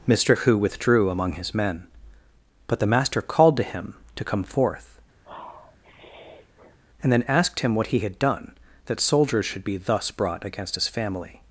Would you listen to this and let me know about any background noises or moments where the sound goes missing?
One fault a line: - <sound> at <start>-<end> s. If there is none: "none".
- sniff at 5.2-6.8 s